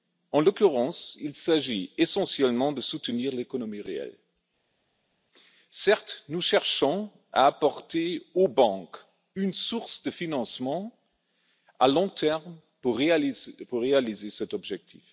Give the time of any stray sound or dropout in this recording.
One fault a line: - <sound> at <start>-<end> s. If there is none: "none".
none